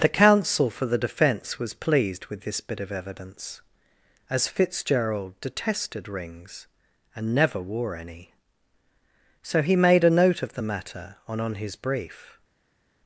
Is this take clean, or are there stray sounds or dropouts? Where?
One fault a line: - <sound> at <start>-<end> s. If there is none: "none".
none